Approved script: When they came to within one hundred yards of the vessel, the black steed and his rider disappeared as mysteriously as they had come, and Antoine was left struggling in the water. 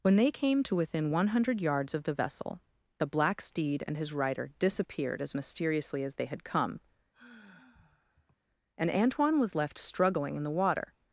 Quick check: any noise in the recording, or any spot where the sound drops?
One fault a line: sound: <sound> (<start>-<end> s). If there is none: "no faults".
sound: sigh (7.1-8.4 s)